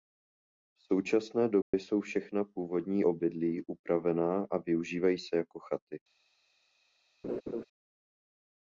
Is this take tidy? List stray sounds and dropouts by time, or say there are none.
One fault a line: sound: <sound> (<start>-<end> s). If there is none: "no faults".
sound: dropout (1.6-1.7 s)
sound: laugh (7.2-7.6 s)